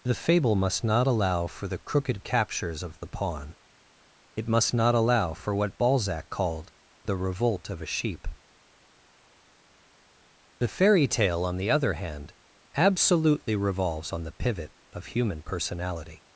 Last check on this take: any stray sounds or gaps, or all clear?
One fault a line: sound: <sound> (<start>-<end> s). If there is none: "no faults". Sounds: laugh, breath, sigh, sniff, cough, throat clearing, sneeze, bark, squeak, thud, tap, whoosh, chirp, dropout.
no faults